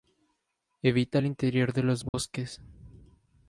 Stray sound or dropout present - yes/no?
yes